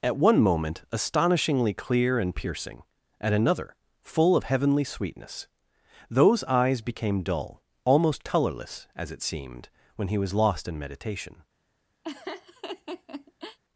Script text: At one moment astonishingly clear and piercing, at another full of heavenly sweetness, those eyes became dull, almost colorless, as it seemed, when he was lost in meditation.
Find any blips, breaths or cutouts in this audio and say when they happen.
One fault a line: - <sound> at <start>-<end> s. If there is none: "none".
- laugh at 12.0-13.6 s